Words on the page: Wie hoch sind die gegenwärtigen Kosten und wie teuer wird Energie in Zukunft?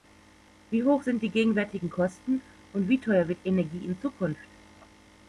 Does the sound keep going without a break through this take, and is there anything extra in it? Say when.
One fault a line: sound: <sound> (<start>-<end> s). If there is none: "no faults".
no faults